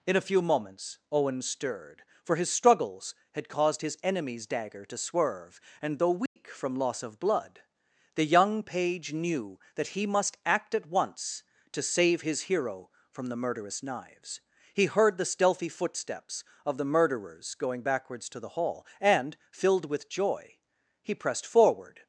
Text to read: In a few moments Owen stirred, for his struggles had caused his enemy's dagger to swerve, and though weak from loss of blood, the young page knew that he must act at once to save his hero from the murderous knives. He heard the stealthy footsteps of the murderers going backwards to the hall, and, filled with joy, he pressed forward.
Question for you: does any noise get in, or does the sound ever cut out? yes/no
yes